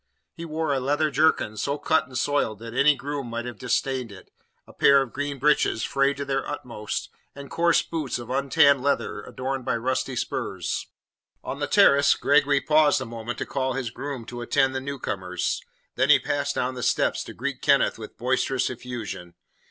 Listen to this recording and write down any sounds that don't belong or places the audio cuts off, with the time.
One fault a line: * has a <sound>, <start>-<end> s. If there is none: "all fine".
all fine